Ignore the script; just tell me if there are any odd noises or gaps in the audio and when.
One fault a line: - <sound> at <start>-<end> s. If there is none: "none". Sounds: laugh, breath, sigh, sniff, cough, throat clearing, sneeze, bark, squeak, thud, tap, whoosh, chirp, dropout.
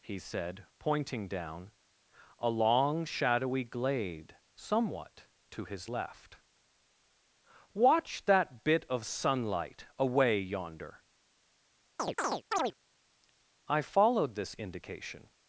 - chirp at 12.0-12.7 s